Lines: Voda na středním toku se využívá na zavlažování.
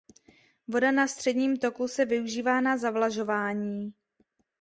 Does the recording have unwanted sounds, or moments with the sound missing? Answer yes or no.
no